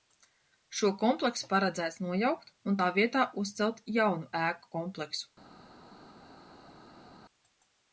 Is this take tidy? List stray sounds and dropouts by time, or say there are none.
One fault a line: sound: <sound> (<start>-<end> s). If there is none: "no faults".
no faults